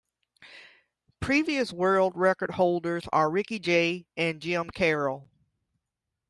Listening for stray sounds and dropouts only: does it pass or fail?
pass